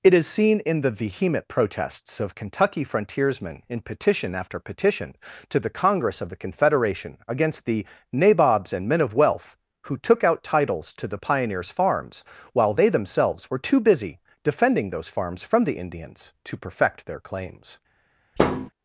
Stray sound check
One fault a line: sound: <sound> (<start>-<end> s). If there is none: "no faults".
sound: thud (18.4-18.7 s)